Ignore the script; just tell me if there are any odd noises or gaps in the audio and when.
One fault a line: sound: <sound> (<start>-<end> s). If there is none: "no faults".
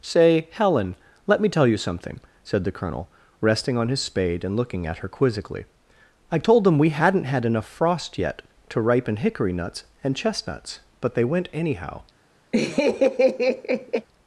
sound: laugh (12.5-14.1 s)